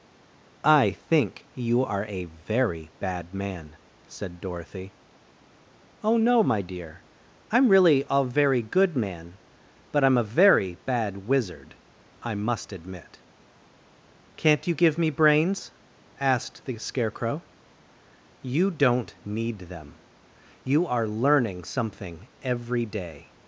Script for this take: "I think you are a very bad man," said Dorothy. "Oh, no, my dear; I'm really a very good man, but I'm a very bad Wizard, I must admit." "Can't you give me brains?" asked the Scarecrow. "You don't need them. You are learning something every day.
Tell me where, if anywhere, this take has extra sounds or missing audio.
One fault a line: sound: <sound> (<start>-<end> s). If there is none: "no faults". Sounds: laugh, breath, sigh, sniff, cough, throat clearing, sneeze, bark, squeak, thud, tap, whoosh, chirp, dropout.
no faults